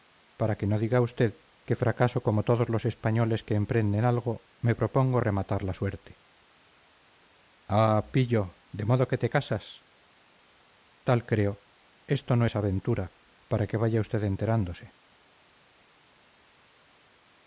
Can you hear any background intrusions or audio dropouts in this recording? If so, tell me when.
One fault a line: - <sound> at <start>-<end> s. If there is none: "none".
none